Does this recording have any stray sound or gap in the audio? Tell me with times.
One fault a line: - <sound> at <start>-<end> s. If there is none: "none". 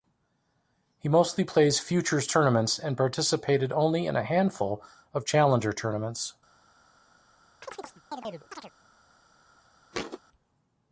- chirp at 7.6-8.7 s
- thud at 9.9-10.2 s